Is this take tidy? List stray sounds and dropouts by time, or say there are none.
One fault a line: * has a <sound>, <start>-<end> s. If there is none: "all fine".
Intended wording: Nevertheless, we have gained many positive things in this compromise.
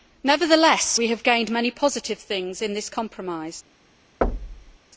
* has a thud, 4.2-4.8 s